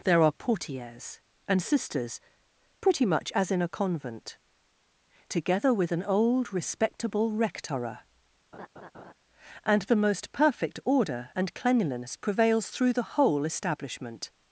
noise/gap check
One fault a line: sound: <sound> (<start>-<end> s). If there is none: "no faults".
sound: laugh (8.5-9.1 s)